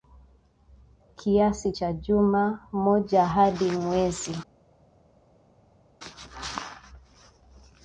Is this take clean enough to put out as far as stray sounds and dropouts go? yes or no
yes